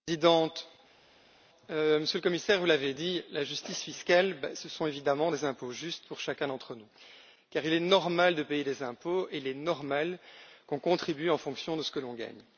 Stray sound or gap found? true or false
false